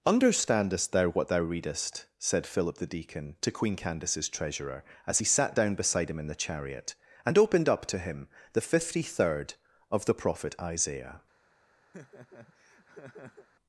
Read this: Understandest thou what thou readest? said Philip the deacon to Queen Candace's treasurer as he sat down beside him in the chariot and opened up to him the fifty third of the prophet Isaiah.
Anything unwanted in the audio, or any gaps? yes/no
yes